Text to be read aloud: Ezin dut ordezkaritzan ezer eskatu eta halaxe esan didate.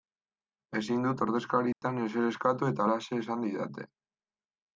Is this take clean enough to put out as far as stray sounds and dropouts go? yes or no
no